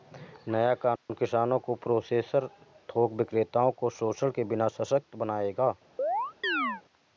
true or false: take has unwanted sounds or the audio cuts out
true